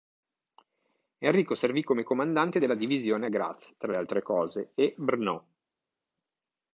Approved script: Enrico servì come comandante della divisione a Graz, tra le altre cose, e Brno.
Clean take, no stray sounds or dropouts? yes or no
yes